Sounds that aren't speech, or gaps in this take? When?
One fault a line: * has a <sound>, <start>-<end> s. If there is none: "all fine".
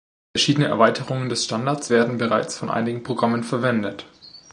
all fine